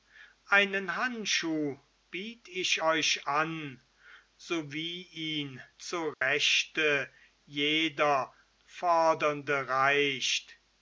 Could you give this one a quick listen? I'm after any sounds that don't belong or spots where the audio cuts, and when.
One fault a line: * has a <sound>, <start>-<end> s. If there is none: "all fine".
* has a dropout, 6.1-6.2 s